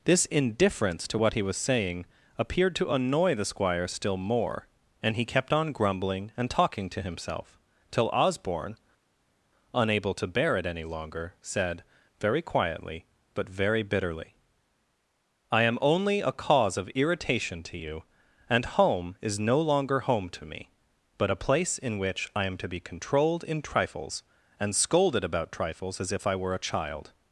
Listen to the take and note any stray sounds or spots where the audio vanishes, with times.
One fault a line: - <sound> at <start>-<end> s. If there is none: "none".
none